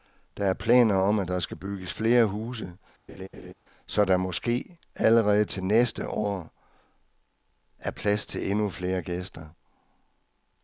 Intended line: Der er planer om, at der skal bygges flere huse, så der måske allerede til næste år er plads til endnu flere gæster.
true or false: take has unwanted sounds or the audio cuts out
true